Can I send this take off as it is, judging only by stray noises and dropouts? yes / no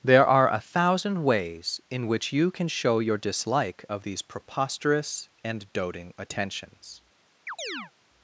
no